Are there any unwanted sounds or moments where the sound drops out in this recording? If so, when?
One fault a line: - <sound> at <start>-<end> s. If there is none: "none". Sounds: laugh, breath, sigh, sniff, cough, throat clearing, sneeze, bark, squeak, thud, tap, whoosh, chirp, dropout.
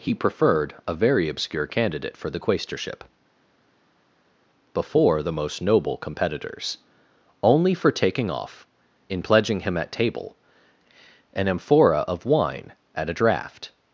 none